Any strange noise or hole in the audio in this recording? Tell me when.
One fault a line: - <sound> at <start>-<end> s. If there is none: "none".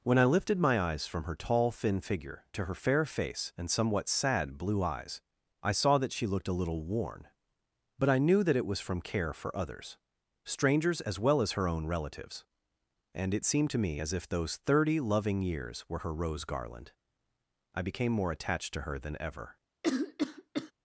- cough at 19.8-20.7 s